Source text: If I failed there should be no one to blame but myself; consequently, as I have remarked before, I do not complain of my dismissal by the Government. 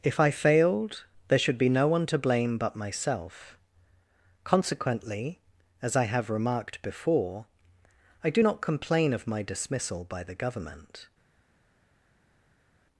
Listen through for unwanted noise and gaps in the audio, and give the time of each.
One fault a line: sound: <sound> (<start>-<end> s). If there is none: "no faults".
no faults